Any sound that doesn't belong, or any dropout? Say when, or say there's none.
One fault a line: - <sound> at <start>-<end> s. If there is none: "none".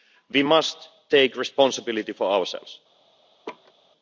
- laugh at 3.5-3.7 s